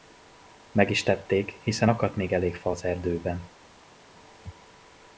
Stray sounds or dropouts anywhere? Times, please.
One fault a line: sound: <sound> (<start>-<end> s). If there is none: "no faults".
no faults